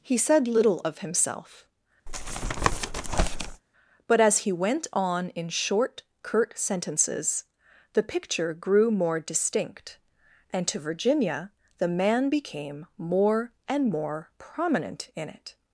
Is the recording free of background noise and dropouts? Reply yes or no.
no